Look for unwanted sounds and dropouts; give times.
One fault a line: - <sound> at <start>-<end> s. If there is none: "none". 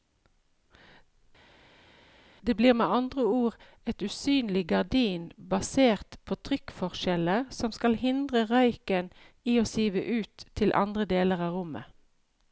none